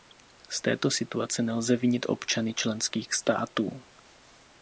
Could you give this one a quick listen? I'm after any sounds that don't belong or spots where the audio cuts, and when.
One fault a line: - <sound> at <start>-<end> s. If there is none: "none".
none